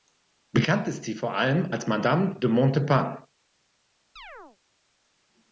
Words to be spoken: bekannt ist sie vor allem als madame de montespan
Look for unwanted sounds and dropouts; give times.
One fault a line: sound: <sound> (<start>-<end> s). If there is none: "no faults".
sound: chirp (4.2-4.6 s)